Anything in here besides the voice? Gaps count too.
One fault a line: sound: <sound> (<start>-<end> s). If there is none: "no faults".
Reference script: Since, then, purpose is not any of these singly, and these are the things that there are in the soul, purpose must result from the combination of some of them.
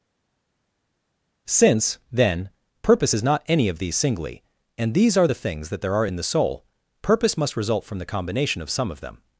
no faults